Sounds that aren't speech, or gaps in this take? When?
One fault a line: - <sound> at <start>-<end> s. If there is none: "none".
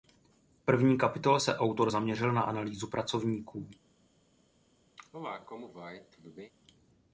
- cough at 5.0-6.5 s